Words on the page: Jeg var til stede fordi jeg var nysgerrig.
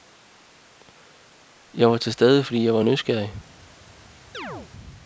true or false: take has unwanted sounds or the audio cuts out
true